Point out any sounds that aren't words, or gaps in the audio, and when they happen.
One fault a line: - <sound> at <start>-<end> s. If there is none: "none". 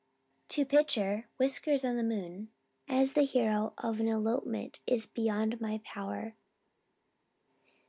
none